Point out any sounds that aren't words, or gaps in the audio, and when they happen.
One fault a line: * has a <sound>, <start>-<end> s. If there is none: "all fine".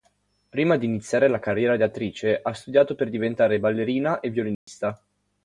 * has a dropout, 4.5-4.7 s